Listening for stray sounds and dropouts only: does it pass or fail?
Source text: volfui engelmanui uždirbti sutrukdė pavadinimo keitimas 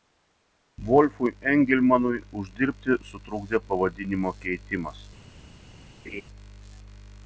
fail